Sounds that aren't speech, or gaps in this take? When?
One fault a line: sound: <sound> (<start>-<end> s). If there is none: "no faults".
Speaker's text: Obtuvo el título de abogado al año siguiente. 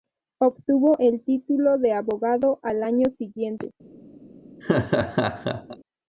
sound: laugh (4.6-5.8 s)